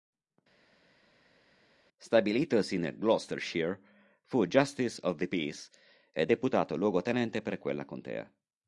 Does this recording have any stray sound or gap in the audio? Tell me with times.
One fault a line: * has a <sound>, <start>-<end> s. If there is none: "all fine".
all fine